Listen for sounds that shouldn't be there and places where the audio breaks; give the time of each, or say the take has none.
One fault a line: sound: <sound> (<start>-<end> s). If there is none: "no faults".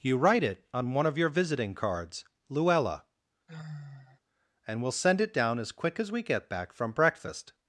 sound: sigh (3.5-4.2 s)